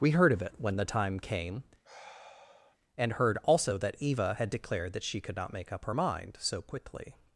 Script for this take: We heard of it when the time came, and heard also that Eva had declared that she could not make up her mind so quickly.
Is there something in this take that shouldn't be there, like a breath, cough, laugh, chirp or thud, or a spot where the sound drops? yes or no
yes